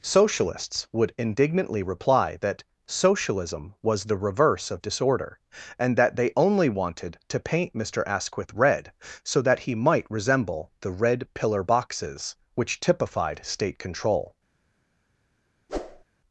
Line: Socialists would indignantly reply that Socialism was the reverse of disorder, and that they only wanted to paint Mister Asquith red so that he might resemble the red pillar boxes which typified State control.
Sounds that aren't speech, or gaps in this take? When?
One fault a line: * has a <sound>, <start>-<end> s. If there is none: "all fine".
* has a whoosh, 15.7-16.0 s